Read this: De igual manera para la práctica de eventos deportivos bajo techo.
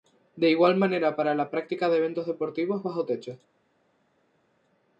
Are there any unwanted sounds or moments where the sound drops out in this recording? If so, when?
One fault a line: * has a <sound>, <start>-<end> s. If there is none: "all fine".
all fine